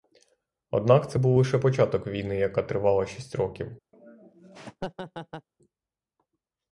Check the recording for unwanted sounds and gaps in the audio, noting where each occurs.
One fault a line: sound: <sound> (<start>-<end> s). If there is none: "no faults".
sound: laugh (3.9-5.5 s)